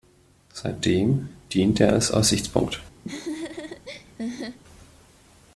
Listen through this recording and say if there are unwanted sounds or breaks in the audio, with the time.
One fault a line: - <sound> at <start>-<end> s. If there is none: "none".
- laugh at 3.0-4.6 s